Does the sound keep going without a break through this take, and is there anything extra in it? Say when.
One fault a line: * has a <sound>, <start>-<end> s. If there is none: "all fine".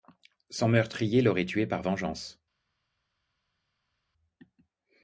all fine